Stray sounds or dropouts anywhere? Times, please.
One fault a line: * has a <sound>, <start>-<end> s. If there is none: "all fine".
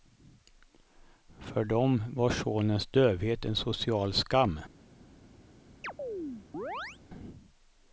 * has a chirp, 5.8-7.0 s